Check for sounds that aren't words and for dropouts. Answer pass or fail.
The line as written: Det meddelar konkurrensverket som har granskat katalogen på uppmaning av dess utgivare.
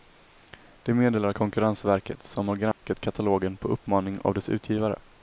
fail